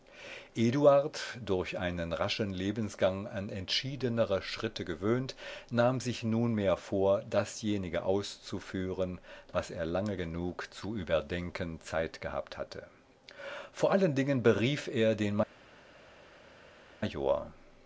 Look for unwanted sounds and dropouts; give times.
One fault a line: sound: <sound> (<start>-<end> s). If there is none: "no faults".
no faults